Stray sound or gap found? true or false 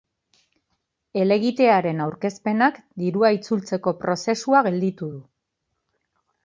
false